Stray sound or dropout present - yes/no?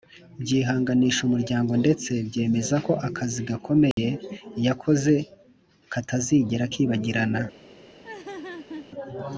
yes